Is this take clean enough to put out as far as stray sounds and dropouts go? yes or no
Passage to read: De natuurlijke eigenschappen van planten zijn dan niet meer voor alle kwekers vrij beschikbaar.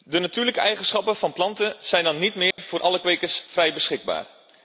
no